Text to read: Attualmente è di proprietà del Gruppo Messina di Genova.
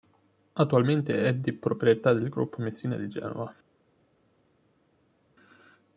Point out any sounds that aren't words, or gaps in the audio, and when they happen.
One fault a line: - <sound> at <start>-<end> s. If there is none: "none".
none